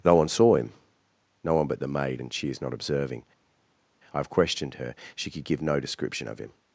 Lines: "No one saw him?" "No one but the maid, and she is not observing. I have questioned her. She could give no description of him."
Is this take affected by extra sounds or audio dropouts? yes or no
no